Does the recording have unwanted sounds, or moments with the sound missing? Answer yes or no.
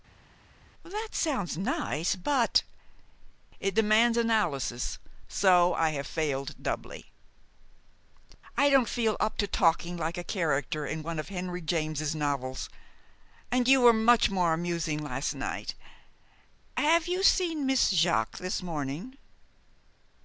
no